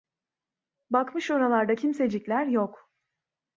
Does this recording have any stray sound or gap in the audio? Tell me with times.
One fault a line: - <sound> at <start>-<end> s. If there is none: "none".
none